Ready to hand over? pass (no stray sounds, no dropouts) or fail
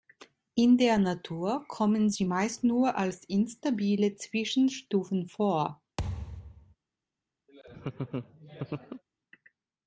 fail